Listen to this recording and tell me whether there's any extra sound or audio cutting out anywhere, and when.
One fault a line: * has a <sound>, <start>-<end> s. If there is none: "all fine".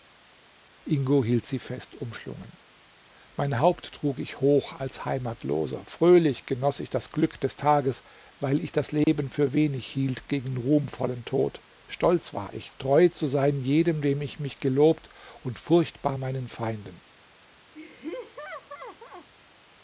* has a dropout, 9.0-9.1 s
* has a laugh, 17.7-19.3 s